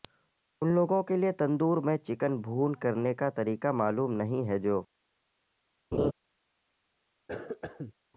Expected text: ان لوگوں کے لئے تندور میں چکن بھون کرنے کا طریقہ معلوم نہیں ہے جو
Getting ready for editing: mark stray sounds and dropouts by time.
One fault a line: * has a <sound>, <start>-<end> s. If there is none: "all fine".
* has a laugh, 5.9-6.1 s
* has a cough, 7.3-7.9 s